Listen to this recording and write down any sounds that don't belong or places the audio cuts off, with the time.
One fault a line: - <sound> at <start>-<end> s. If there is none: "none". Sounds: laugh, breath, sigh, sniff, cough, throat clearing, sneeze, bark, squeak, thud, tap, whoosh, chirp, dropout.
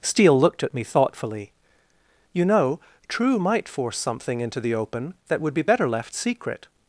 none